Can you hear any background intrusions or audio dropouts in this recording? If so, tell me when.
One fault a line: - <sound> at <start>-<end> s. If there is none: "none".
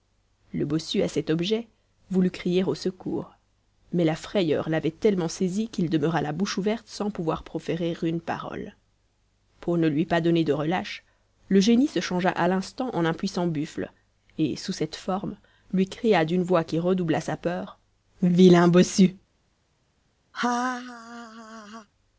- laugh at 20.3-21.9 s